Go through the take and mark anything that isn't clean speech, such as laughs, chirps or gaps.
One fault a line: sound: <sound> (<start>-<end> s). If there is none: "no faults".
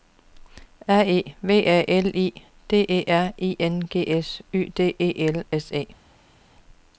no faults